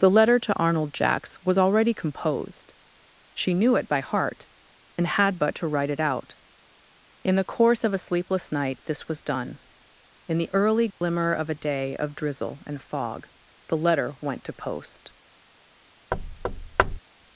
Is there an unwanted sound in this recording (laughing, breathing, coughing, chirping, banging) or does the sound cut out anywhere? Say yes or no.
yes